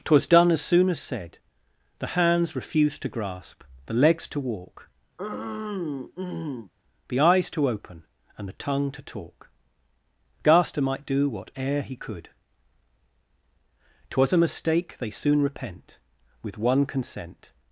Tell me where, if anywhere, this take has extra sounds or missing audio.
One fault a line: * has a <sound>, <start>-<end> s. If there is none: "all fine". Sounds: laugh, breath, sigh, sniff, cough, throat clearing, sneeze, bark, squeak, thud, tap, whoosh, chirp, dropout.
* has a throat clearing, 5.2-6.7 s